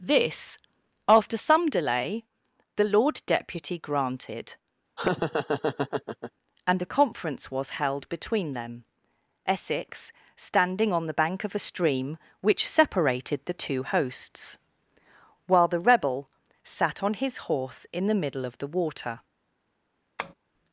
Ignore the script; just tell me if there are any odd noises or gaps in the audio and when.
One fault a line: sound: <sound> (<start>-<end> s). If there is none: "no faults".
sound: laugh (5.0-6.3 s)
sound: tap (20.2-20.3 s)